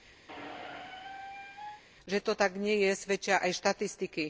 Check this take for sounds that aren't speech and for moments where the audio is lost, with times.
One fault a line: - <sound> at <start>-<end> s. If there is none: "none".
- squeak at 0.3-1.8 s